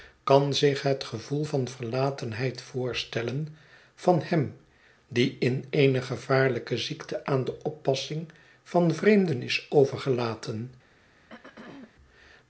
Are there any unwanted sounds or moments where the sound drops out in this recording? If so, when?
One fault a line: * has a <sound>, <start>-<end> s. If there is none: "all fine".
* has a throat clearing, 11.1-12.0 s